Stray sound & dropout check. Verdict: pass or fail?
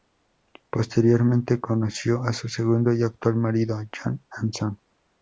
pass